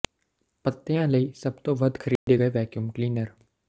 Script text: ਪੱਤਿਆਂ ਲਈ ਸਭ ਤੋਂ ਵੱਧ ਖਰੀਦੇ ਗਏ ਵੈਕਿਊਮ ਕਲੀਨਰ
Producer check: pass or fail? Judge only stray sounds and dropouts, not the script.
fail